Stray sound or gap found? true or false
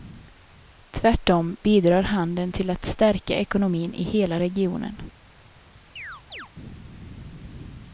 true